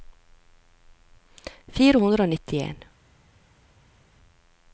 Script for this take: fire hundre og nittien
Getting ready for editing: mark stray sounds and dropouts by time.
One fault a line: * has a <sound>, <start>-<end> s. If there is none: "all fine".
all fine